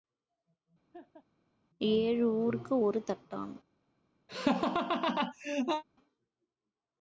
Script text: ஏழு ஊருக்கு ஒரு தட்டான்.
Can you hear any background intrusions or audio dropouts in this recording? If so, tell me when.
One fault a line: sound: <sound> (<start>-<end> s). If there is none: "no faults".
sound: laugh (0.9-1.3 s)
sound: laugh (4.3-5.8 s)